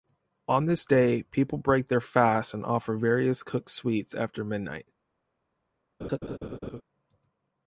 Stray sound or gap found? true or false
true